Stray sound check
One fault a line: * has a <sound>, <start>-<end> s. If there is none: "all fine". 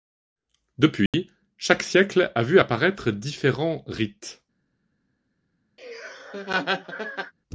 * has a dropout, 1.1-1.1 s
* has a laugh, 5.8-7.3 s